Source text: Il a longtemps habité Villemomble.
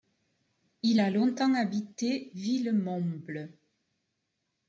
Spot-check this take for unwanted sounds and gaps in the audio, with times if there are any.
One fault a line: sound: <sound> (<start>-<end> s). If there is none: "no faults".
no faults